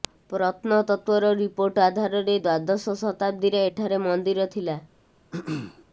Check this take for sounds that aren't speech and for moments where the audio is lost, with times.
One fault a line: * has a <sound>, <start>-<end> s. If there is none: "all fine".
* has a throat clearing, 5.3-5.8 s